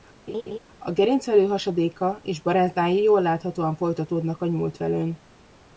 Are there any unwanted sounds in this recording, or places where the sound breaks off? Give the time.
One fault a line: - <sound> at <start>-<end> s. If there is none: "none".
- laugh at 0.3-0.6 s